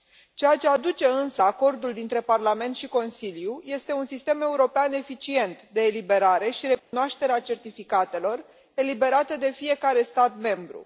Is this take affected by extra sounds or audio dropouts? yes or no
yes